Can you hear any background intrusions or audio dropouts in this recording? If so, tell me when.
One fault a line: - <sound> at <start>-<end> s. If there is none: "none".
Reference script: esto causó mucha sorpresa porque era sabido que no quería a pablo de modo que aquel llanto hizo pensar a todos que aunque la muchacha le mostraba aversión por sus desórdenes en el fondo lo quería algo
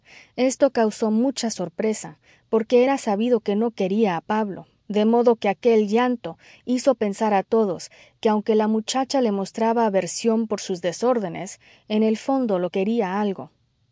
none